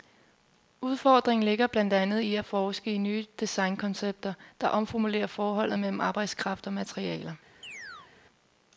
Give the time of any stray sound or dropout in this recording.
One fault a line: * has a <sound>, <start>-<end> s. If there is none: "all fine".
* has a chirp, 7.6-8.1 s